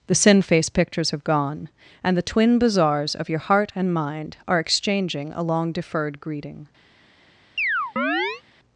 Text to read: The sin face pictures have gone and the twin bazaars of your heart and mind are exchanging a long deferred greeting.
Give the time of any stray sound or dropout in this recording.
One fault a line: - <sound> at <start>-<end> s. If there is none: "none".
- chirp at 7.6-8.4 s